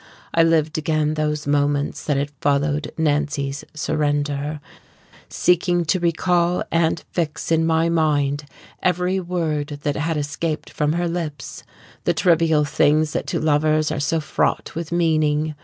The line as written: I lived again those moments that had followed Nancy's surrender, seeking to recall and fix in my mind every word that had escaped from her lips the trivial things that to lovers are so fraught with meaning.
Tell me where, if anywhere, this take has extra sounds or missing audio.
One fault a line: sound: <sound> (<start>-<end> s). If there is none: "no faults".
no faults